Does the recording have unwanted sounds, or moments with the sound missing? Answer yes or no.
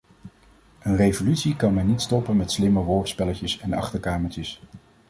no